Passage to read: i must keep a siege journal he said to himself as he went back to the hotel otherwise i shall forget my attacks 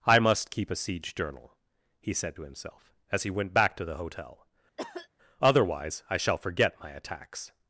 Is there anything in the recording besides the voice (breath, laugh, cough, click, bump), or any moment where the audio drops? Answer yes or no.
yes